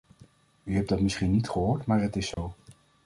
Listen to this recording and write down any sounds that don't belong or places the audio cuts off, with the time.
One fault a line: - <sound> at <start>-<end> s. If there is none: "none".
- dropout at 2.3-2.4 s